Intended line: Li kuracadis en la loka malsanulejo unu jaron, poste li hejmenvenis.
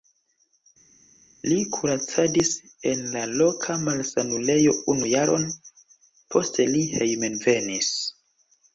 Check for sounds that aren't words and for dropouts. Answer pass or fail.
pass